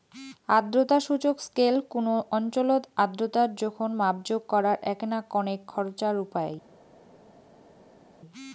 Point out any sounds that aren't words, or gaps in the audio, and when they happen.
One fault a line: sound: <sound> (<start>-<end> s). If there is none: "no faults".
no faults